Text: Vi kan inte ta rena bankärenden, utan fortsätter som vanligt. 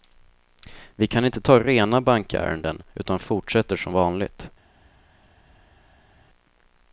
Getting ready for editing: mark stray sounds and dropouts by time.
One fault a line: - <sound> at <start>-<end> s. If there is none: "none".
none